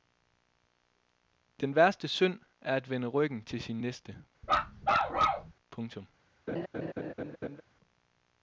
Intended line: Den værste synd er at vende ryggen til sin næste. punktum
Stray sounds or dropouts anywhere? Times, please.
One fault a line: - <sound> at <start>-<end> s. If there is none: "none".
- bark at 4.4-5.5 s
- laugh at 6.5-7.6 s